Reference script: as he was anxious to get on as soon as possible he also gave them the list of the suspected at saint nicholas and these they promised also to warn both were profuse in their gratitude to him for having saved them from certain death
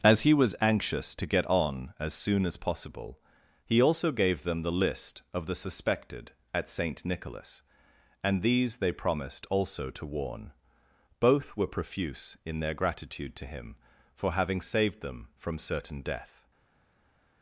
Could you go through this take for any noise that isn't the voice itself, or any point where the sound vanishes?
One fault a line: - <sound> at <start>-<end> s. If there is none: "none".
none